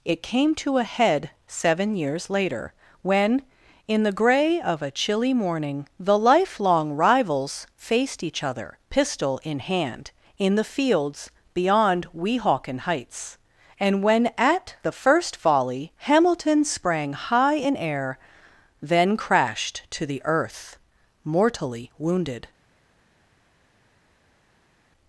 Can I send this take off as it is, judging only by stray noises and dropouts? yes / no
yes